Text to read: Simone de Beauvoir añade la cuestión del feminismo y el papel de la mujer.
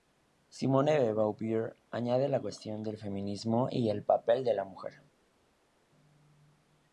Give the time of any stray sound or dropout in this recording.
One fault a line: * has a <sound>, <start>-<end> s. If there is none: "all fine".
all fine